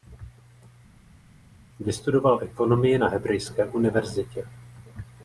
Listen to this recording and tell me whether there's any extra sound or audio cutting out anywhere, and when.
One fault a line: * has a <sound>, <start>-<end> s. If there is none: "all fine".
all fine